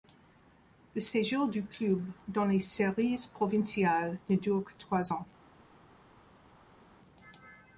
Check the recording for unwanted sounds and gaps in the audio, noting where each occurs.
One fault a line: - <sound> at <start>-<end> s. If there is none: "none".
none